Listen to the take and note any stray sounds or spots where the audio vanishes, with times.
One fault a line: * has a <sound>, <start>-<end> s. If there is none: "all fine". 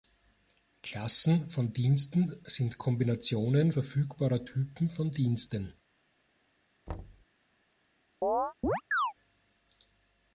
* has a thud, 6.9-7.3 s
* has a chirp, 8.2-9.1 s